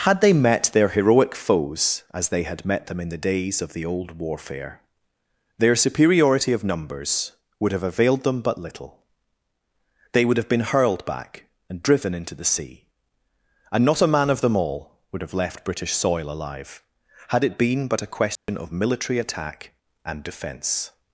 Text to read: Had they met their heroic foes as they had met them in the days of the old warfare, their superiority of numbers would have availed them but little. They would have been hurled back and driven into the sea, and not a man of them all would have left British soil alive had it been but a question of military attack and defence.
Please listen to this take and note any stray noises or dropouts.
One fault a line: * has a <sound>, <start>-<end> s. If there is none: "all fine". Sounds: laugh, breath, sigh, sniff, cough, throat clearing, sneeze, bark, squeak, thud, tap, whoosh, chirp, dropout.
* has a dropout, 18.4-18.5 s